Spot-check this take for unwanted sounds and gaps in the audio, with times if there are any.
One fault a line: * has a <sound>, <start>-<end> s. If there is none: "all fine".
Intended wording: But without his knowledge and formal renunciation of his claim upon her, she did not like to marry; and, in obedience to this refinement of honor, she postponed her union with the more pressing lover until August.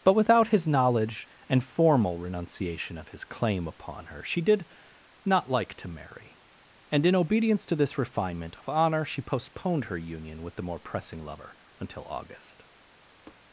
* has a tap, 13.3-13.4 s